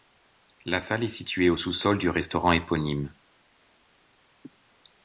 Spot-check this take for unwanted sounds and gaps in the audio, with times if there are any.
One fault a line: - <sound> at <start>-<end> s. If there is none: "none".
none